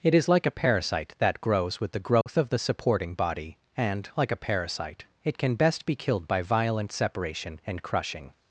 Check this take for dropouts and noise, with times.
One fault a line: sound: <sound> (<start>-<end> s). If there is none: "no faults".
sound: dropout (2.2-2.3 s)